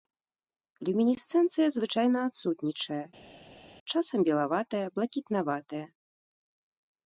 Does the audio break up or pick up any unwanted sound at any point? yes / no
no